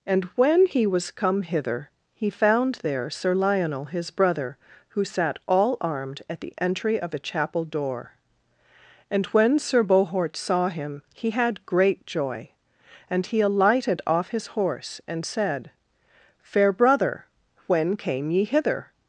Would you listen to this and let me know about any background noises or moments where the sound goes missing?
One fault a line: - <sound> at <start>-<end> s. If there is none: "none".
none